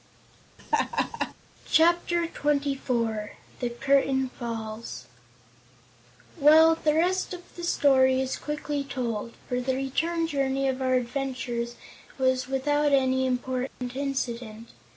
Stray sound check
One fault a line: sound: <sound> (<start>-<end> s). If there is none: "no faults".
sound: laugh (0.6-1.3 s)
sound: dropout (13.7-13.8 s)